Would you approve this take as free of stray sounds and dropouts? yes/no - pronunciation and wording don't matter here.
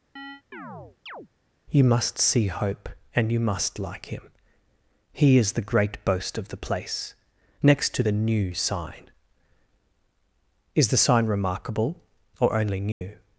no